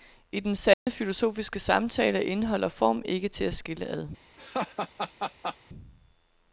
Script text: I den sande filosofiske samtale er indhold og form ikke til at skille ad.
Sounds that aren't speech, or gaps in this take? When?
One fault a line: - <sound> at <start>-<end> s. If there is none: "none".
- dropout at 0.7-0.9 s
- laugh at 4.4-5.6 s